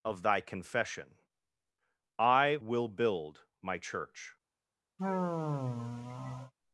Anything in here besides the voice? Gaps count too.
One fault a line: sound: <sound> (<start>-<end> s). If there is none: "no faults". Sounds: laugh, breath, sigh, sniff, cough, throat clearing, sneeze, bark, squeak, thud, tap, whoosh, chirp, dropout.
sound: sigh (5.0-6.5 s)